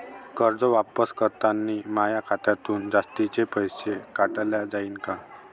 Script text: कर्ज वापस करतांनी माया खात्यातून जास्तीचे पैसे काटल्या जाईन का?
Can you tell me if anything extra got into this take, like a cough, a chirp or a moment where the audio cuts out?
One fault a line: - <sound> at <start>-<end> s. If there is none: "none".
none